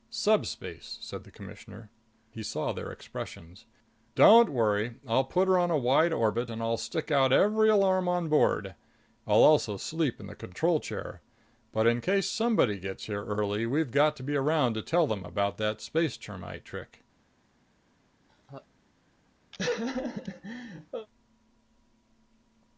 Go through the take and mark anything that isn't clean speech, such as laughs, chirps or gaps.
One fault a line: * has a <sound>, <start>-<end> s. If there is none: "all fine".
* has a laugh, 18.3-18.7 s
* has a laugh, 19.5-21.1 s